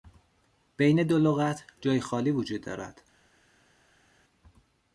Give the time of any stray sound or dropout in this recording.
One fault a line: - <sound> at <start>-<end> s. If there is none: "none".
none